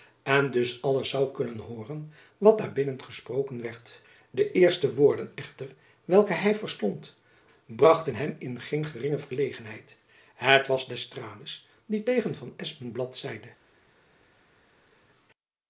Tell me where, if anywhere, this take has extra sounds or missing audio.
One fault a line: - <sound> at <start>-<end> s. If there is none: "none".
none